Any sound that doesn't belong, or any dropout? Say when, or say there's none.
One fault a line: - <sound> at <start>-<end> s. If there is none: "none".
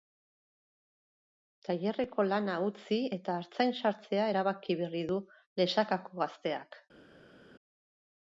none